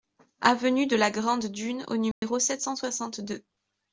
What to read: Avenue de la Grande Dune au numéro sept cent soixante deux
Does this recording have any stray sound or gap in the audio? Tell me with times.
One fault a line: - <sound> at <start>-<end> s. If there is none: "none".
- dropout at 2.1-2.2 s